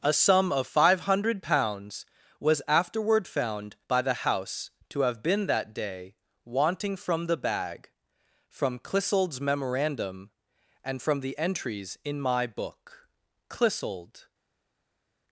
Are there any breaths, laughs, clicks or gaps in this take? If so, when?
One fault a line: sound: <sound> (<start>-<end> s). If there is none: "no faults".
no faults